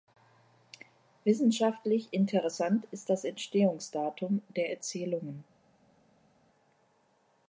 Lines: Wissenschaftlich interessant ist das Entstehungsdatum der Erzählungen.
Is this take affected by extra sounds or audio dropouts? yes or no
no